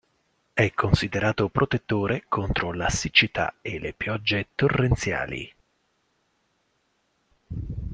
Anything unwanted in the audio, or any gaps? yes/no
no